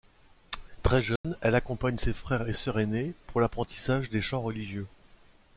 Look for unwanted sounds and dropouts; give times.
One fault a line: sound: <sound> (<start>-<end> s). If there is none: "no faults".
sound: dropout (1.2-1.2 s)